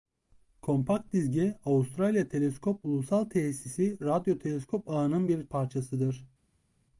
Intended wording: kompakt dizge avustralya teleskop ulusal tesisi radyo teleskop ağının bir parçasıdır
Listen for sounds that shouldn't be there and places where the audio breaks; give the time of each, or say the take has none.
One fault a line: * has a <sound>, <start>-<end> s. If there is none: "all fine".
all fine